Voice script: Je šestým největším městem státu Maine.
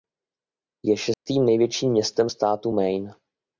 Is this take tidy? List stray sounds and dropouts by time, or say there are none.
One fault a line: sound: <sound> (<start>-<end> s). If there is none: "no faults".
sound: dropout (1.1-1.3 s)